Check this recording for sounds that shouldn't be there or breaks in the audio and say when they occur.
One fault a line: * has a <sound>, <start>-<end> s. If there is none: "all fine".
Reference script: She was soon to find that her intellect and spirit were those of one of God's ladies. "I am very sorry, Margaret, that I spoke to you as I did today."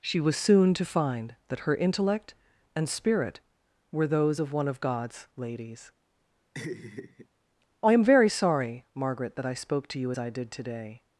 * has a laugh, 6.5-7.3 s